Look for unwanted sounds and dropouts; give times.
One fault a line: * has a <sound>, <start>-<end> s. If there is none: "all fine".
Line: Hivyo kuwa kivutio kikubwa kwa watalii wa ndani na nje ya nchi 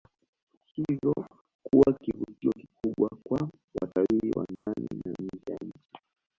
* has a dropout, 4.6-4.7 s